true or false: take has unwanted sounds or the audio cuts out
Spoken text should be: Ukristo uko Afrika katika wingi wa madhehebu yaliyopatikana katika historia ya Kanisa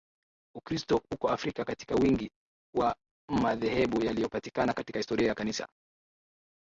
false